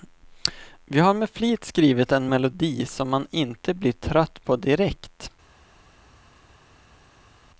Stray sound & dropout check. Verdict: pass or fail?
pass